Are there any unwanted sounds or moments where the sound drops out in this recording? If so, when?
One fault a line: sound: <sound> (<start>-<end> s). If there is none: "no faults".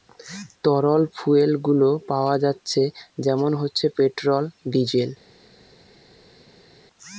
no faults